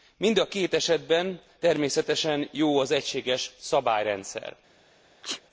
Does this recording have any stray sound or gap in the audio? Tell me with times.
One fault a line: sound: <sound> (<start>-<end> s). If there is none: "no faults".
sound: sneeze (5.2-5.4 s)